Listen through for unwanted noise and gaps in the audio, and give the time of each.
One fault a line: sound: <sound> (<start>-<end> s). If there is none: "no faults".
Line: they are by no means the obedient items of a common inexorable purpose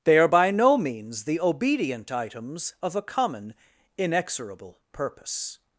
no faults